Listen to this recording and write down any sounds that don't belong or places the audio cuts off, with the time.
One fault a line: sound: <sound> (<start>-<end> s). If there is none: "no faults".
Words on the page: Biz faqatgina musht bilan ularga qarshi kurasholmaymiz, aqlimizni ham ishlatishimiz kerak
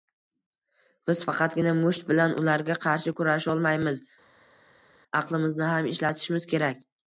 no faults